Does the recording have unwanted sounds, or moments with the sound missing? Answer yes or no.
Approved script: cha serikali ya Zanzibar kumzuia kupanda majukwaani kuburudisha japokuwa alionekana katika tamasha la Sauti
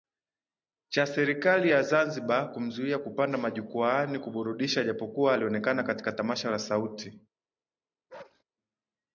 yes